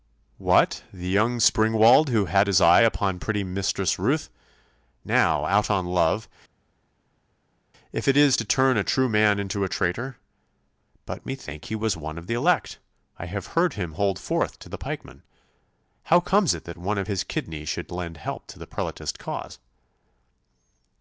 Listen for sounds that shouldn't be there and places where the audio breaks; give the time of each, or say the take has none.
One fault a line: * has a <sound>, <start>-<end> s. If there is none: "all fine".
all fine